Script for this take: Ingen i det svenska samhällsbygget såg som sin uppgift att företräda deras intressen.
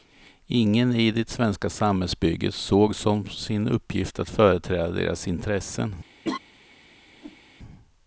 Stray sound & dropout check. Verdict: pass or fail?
fail